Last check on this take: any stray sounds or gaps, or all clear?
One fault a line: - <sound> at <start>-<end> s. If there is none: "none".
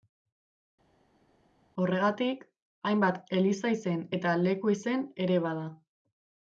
none